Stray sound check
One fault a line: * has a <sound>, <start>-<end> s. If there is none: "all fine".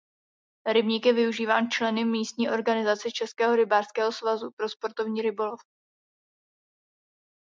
all fine